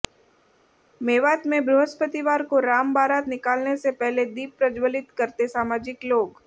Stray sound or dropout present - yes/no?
no